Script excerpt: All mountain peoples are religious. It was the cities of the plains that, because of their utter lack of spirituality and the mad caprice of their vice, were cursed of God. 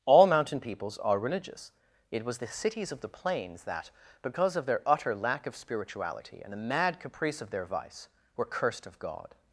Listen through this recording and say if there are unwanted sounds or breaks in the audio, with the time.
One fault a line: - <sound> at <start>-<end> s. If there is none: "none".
none